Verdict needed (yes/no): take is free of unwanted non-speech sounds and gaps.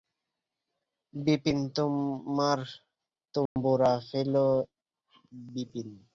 no